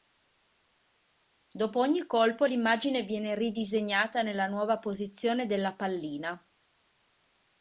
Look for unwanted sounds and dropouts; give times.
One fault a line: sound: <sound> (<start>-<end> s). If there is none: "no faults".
no faults